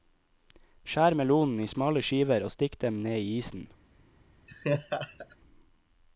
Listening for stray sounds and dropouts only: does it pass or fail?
fail